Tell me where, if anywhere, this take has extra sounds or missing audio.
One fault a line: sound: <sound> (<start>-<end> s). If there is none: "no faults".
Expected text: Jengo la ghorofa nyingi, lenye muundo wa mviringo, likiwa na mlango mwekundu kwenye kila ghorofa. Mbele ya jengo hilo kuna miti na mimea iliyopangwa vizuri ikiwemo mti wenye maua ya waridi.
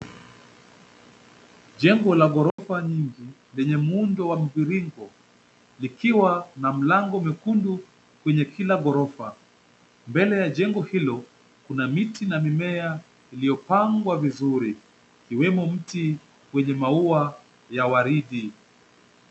sound: dropout (2.5-2.6 s)